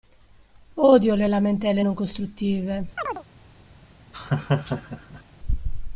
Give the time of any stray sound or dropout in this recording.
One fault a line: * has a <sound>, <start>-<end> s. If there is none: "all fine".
* has a chirp, 3.0-3.2 s
* has a laugh, 4.1-5.2 s